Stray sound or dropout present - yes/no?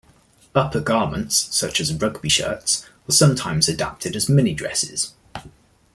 no